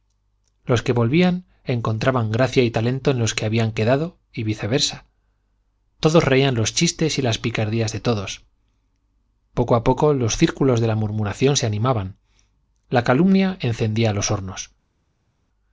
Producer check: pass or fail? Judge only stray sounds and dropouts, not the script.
pass